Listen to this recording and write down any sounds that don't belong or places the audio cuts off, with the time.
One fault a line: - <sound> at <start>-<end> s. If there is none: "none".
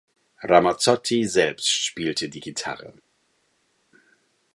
none